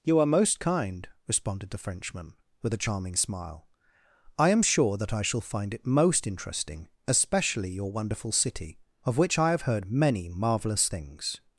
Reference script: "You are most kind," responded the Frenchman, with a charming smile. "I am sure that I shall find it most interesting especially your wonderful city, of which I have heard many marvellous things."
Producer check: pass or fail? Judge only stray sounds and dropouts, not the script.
pass